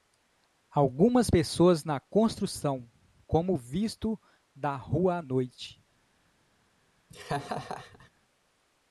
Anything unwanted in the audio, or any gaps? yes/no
yes